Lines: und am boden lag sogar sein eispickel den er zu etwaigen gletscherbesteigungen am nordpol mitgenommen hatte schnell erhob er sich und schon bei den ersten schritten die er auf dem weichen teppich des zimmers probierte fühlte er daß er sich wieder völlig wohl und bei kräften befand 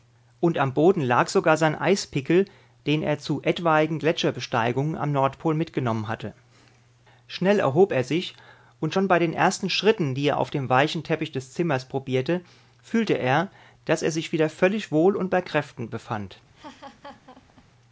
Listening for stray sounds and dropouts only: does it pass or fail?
fail